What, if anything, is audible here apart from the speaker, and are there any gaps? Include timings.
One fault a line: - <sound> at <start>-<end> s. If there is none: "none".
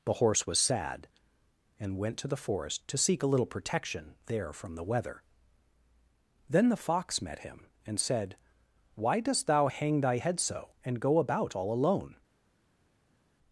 none